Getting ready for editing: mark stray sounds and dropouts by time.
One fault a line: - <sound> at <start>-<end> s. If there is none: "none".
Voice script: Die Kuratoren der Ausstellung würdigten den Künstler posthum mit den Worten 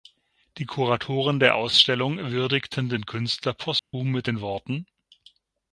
- dropout at 3.8-3.9 s